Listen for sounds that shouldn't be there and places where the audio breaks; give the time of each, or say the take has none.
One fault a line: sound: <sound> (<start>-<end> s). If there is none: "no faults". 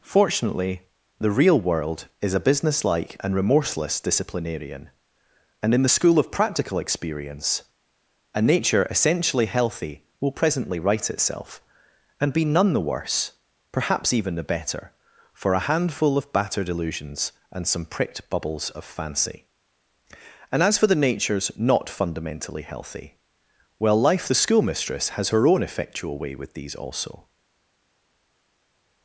no faults